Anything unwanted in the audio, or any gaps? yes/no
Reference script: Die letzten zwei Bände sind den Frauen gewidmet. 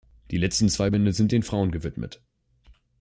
no